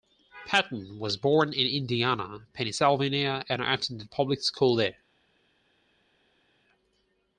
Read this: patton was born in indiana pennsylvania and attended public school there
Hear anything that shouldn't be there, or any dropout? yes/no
no